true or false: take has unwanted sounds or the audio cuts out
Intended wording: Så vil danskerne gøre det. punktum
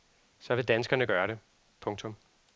false